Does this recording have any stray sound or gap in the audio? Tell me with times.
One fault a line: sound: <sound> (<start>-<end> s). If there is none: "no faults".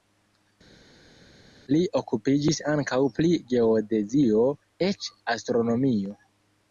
no faults